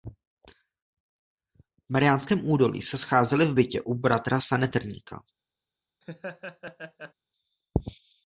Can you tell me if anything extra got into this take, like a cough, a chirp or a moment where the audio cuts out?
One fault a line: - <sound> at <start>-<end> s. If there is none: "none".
- laugh at 6.0-7.1 s